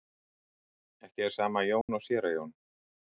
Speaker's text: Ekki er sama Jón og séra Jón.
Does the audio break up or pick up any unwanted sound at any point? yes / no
yes